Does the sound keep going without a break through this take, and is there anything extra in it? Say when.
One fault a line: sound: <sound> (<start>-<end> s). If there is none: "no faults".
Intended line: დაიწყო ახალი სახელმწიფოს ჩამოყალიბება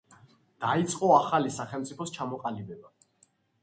no faults